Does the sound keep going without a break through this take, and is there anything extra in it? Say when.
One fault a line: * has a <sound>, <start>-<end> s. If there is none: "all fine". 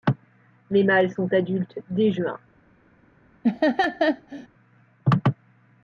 * has a laugh, 3.4-4.5 s